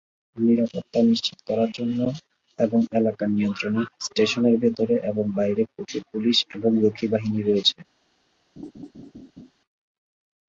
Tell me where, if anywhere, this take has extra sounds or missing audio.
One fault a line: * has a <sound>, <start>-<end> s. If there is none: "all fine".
* has a laugh, 8.6-9.5 s